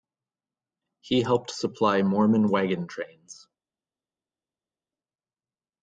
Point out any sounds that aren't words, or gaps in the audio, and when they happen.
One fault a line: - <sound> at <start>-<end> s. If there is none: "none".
none